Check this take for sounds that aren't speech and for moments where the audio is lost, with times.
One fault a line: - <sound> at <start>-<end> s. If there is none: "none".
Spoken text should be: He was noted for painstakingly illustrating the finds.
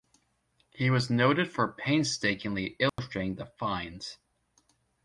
- dropout at 2.9-3.0 s